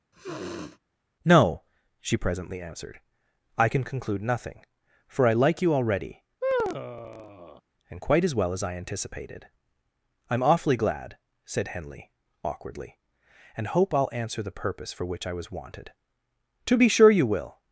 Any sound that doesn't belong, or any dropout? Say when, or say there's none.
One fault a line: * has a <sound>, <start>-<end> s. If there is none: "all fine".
* has a sniff, 0.1-0.8 s
* has a sigh, 6.4-7.6 s